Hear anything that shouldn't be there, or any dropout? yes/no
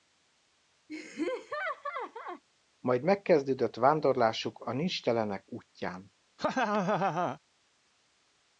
yes